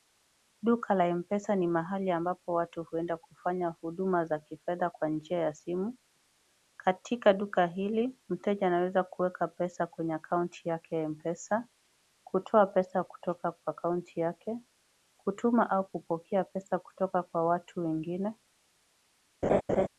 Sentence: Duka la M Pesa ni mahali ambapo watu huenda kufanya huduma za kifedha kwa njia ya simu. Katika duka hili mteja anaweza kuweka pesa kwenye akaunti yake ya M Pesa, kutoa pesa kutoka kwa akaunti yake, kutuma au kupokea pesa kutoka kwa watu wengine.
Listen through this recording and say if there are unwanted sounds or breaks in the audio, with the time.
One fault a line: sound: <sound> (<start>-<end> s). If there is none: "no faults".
sound: laugh (19.4-19.9 s)